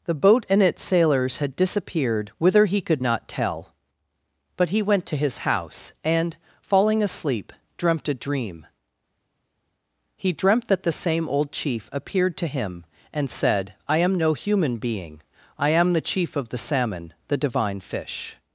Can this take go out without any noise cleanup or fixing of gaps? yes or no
yes